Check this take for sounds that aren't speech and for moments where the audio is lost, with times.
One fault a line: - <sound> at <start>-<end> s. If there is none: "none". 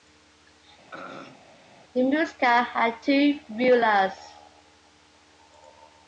- throat clearing at 0.9-1.5 s